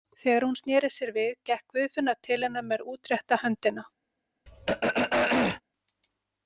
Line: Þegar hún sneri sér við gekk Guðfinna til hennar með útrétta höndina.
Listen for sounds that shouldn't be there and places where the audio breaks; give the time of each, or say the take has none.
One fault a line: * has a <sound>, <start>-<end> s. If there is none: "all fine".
* has a throat clearing, 4.5-5.6 s